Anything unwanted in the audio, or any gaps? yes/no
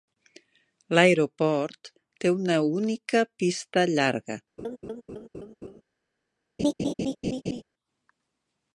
yes